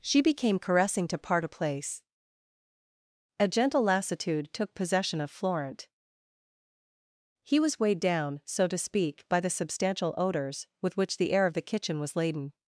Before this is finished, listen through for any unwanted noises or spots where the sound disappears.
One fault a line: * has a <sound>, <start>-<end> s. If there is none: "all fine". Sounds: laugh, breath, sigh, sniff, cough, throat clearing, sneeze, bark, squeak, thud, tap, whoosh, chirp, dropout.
all fine